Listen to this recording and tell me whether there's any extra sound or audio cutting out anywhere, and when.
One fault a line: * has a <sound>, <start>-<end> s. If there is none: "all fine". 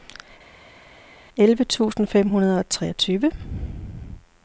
all fine